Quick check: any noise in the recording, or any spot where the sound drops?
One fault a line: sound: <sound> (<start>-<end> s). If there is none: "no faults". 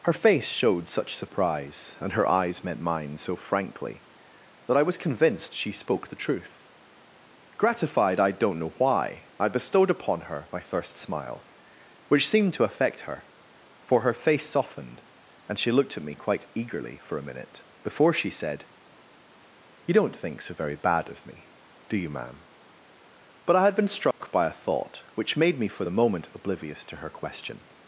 sound: dropout (24.1-24.2 s)